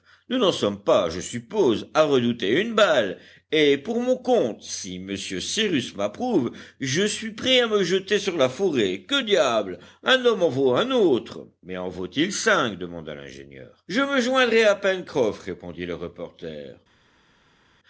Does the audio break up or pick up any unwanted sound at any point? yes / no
no